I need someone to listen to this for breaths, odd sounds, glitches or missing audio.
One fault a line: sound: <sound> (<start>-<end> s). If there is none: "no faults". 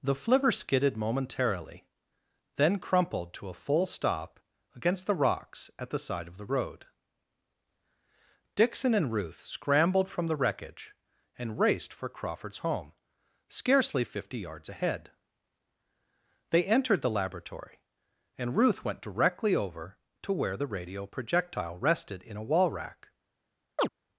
sound: chirp (23.8-23.9 s)